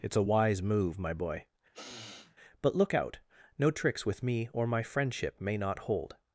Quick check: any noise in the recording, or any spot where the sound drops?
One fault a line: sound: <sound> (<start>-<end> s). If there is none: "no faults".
sound: sniff (1.7-2.4 s)